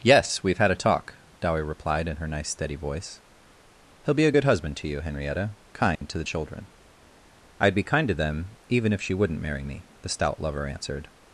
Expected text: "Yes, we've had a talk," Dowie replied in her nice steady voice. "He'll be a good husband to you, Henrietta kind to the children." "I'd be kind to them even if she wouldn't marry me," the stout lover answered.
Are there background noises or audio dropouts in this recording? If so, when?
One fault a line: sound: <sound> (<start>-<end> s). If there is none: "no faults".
sound: dropout (6.0-6.0 s)